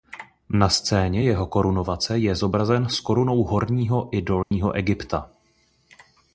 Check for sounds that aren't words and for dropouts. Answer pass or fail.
fail